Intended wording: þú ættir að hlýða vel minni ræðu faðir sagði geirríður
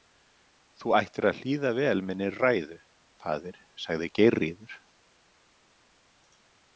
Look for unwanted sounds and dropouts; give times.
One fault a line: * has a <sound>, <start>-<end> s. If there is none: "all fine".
all fine